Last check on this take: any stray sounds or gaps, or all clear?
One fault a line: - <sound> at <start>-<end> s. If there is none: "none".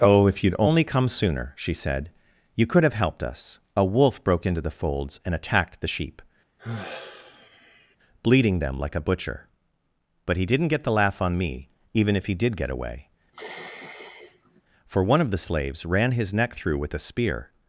- sigh at 6.6-8.0 s
- sigh at 13.3-14.6 s